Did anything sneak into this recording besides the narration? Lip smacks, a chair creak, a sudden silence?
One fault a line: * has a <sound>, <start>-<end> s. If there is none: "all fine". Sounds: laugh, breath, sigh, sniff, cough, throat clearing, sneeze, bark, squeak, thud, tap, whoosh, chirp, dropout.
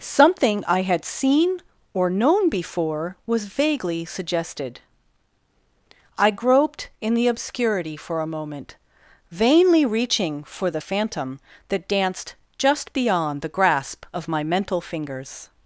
all fine